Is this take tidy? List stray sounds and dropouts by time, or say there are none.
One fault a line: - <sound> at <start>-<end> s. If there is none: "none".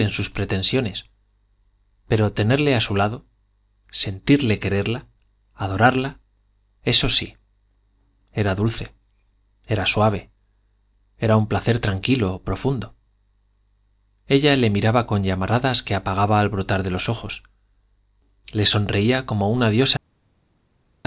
none